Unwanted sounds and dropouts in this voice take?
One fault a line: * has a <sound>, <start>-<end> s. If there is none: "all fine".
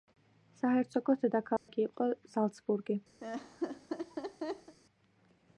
* has a dropout, 1.6-1.7 s
* has a laugh, 3.2-4.8 s